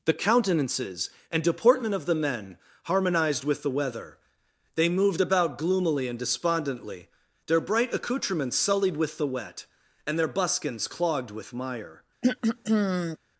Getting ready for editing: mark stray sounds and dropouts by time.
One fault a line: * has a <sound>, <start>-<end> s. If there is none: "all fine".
* has a throat clearing, 12.2-13.2 s